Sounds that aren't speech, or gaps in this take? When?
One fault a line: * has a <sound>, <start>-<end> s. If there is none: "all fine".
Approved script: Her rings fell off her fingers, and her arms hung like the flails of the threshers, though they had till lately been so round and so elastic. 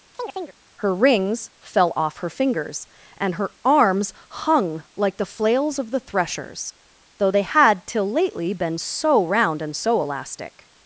* has a chirp, 0.1-0.6 s